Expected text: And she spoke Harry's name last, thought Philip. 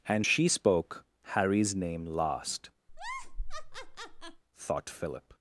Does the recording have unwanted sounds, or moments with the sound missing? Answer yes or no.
yes